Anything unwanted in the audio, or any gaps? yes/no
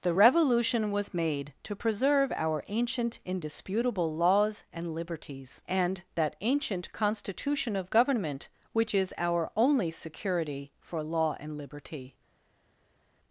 no